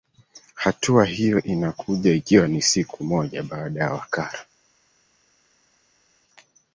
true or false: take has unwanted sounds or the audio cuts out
false